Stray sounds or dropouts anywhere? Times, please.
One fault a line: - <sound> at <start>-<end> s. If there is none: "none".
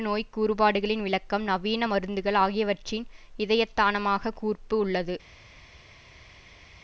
none